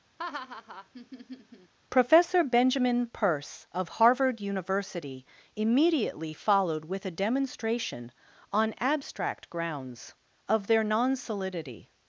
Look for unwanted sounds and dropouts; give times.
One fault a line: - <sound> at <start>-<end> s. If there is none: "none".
- laugh at 0.2-1.7 s